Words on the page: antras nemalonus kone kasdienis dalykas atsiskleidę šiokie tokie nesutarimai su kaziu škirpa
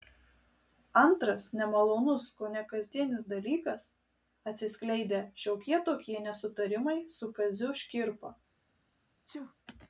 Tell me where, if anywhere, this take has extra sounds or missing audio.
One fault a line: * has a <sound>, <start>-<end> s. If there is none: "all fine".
* has a sneeze, 9.3-9.5 s